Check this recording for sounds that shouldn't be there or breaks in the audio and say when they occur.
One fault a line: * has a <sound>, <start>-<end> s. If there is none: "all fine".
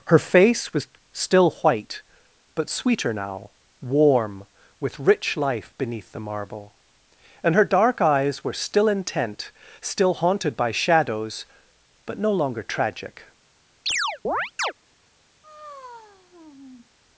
* has a chirp, 13.9-14.7 s
* has a sigh, 15.4-16.9 s